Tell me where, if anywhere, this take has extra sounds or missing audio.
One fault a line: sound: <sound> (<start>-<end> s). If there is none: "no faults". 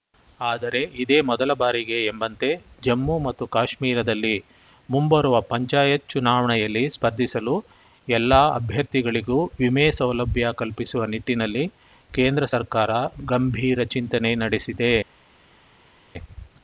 no faults